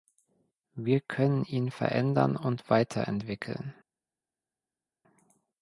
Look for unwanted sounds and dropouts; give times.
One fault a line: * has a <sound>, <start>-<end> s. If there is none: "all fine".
all fine